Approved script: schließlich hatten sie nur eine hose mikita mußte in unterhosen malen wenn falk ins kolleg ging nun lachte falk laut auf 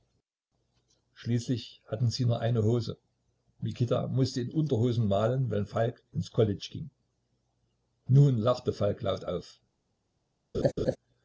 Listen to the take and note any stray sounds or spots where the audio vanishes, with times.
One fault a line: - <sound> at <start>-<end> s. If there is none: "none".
- laugh at 10.5-11.0 s